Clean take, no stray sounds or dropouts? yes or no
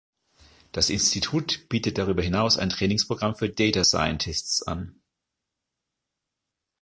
yes